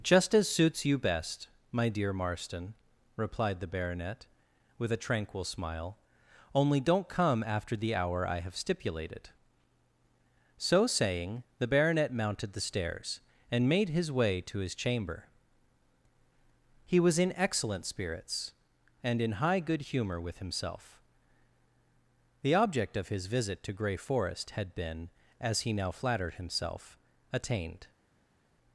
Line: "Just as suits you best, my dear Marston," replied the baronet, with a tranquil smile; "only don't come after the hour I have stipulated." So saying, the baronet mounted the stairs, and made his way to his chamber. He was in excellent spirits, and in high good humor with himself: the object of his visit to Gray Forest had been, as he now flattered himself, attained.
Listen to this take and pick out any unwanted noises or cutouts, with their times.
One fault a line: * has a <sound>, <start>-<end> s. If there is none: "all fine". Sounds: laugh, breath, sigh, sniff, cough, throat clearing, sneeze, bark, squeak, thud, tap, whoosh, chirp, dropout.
all fine